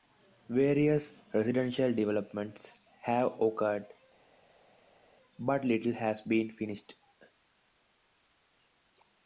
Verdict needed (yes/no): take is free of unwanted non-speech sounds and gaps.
yes